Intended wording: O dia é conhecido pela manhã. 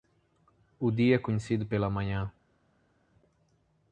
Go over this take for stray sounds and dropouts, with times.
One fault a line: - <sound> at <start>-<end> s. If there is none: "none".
none